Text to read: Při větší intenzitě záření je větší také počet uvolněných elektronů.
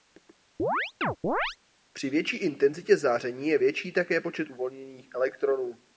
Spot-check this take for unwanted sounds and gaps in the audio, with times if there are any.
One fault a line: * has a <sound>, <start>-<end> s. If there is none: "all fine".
* has a chirp, 0.6-1.6 s